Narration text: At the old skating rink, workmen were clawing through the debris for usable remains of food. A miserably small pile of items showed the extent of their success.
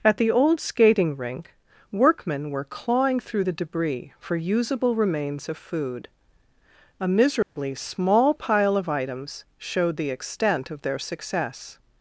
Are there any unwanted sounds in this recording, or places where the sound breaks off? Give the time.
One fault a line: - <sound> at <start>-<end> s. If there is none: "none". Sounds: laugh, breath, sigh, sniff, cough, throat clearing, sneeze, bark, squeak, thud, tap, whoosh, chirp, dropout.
- dropout at 7.4-7.6 s